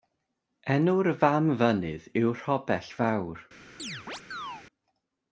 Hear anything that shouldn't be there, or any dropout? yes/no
yes